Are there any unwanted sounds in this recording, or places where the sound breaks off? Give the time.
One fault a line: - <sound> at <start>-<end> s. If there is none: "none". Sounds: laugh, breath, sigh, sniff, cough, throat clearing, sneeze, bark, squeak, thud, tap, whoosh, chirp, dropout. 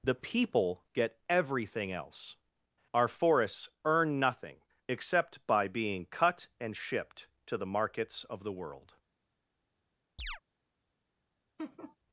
- chirp at 10.2-10.4 s
- laugh at 11.6-12.0 s